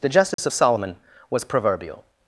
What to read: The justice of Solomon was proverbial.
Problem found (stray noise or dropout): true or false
true